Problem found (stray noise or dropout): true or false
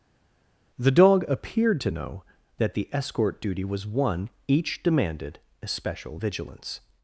false